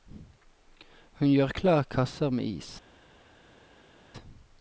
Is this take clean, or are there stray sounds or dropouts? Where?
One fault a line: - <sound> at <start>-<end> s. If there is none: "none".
none